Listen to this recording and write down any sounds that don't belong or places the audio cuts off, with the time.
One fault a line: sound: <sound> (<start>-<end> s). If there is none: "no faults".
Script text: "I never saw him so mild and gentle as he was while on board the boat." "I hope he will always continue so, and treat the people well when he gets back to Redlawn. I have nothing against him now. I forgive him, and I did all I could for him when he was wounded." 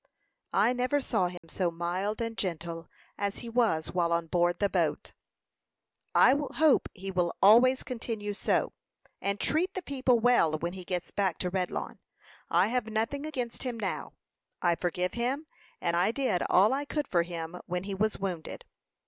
sound: dropout (1.4-1.4 s)